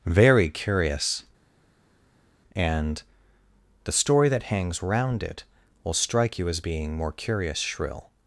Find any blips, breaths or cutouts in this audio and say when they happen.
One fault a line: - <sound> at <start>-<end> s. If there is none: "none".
none